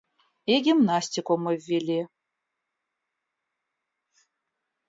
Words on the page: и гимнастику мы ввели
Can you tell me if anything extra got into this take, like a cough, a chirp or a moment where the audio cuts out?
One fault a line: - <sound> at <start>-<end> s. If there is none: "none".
none